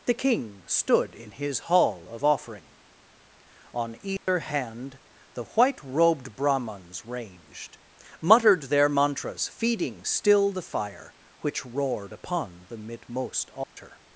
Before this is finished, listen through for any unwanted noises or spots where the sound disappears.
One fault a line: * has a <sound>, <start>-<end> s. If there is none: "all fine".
* has a dropout, 4.2-4.3 s
* has a dropout, 13.6-13.8 s